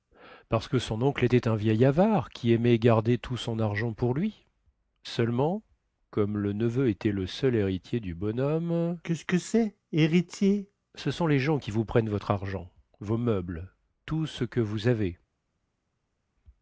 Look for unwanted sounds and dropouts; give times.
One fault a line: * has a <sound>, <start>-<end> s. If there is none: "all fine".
all fine